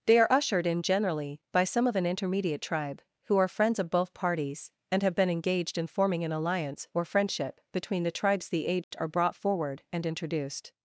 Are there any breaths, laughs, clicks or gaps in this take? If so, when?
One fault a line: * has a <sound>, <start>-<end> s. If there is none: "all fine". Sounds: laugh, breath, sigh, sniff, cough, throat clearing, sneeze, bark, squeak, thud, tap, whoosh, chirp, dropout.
* has a dropout, 8.8-8.9 s